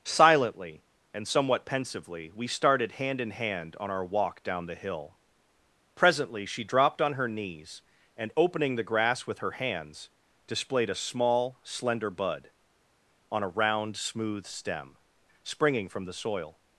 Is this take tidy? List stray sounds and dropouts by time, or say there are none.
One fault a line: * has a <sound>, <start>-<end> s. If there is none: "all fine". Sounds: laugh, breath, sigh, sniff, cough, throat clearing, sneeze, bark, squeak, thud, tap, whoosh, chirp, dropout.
all fine